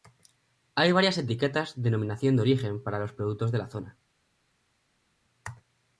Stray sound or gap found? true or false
false